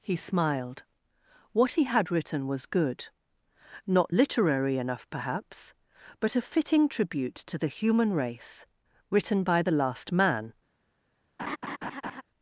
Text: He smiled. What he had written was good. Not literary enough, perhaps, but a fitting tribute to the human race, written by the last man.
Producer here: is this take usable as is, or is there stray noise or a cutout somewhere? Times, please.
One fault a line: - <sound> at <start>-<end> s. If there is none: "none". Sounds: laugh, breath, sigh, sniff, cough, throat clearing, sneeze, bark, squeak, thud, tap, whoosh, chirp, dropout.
- laugh at 11.4-12.2 s